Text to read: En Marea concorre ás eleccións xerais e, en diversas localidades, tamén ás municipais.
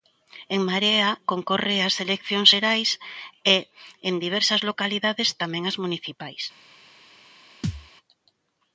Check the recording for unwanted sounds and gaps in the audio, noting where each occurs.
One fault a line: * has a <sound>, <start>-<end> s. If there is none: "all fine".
* has a thud, 7.6-7.9 s